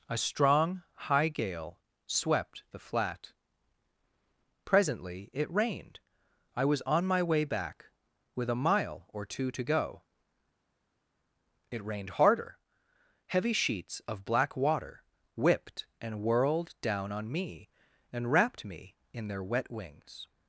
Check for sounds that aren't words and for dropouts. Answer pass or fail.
pass